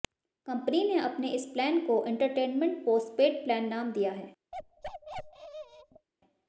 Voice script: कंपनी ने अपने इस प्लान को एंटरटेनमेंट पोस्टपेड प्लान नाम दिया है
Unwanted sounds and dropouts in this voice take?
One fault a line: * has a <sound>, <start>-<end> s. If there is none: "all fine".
* has a bark, 4.5-6.1 s